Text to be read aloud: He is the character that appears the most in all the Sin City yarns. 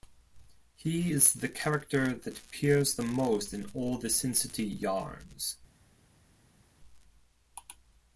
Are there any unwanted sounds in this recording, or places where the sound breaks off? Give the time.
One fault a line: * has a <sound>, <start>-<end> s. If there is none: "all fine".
all fine